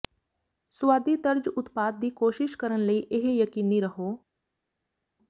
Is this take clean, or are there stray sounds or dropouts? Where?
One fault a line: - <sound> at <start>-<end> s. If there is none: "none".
none